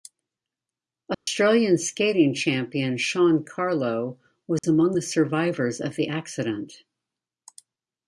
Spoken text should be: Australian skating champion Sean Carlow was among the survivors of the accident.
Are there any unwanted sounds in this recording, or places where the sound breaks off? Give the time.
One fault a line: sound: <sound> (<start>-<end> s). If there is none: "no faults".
sound: dropout (1.1-1.3 s)
sound: dropout (4.6-4.6 s)